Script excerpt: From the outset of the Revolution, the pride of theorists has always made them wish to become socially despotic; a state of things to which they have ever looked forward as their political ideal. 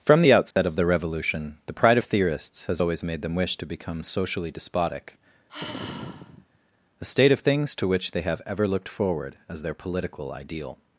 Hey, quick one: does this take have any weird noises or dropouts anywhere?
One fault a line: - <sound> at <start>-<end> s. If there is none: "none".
- dropout at 0.5-0.6 s
- sigh at 5.5-6.6 s